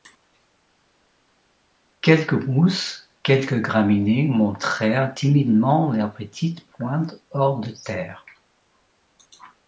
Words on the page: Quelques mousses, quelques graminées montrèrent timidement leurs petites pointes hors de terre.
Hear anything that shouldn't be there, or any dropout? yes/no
no